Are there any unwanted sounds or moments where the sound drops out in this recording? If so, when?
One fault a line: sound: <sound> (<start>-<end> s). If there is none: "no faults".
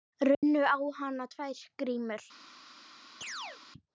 sound: dropout (0.3-0.4 s)
sound: chirp (3.2-3.6 s)